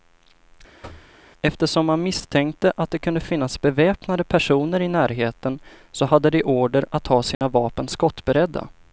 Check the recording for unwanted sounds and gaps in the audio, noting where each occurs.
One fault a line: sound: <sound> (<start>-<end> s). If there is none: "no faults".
sound: thud (0.8-1.2 s)
sound: dropout (7.3-7.4 s)